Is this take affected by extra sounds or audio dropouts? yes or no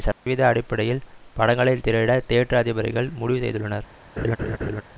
yes